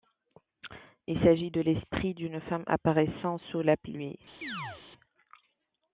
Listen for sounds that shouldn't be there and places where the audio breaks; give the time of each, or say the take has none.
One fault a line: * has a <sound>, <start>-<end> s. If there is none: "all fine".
* has a chirp, 4.4-4.8 s